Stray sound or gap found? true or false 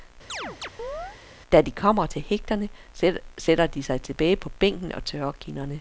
true